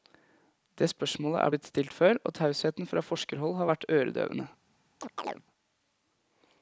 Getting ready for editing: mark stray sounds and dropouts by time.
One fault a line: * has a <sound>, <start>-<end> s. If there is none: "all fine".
* has a chirp, 5.0-5.4 s